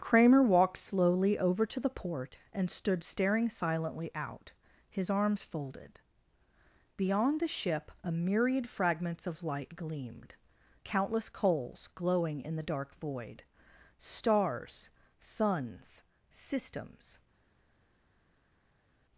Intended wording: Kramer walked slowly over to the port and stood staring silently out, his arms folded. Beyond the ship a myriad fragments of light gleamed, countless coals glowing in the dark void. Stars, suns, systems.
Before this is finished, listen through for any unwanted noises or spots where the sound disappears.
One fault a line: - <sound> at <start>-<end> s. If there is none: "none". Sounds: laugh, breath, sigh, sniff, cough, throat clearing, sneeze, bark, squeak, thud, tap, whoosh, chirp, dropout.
none